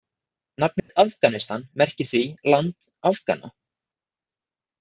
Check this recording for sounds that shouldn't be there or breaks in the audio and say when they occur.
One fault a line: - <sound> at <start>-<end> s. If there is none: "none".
- dropout at 0.8-0.9 s